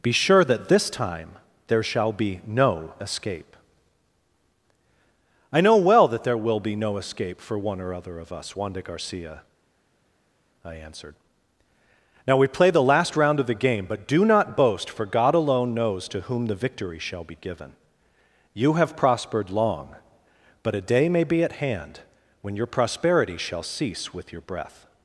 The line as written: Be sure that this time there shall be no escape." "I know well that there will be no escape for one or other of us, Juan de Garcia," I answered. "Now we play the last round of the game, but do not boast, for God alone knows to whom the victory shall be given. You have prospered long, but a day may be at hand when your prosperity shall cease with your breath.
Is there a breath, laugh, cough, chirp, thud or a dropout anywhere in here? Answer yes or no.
no